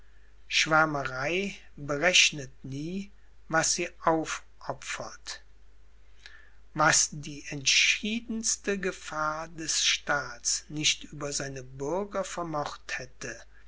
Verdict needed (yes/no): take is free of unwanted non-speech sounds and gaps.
yes